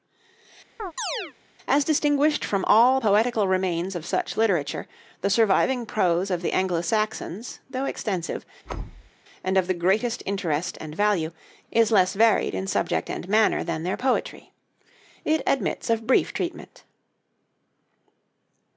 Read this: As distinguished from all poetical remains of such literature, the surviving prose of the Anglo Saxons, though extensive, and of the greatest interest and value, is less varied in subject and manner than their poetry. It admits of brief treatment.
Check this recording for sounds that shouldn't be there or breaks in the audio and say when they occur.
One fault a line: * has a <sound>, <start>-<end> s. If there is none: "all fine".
* has a chirp, 0.8-1.3 s
* has a thud, 8.6-9.1 s